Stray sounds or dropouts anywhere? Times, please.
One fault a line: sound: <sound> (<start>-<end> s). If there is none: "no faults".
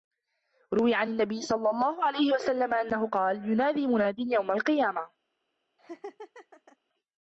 sound: laugh (5.8-6.8 s)